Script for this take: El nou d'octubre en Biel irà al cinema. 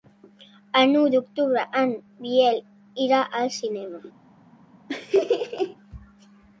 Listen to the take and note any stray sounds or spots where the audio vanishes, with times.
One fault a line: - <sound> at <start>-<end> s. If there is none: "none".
- laugh at 4.9-5.8 s